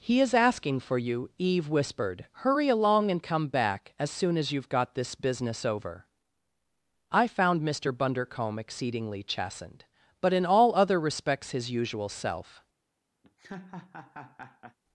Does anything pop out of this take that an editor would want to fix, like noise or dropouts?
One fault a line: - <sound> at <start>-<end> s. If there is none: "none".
- laugh at 13.2-14.8 s